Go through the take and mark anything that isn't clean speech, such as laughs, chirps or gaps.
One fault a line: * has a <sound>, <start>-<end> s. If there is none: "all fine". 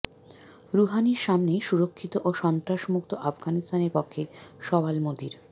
all fine